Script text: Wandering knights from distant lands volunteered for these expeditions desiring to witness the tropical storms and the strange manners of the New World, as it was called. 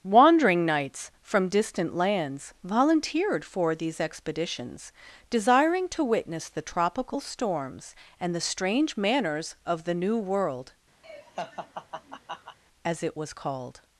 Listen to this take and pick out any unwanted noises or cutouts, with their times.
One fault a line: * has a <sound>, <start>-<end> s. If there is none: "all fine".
* has a laugh, 11.0-12.6 s